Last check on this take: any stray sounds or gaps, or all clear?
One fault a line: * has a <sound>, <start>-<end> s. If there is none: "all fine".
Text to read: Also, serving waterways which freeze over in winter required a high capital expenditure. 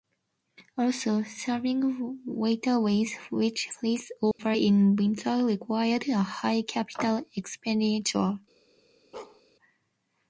* has a dropout, 4.3-4.4 s
* has a bark, 9.1-9.4 s